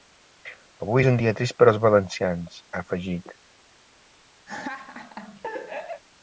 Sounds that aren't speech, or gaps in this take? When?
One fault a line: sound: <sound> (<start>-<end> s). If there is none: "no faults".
sound: laugh (4.5-6.0 s)